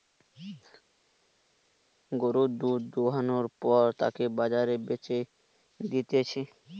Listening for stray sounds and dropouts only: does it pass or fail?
pass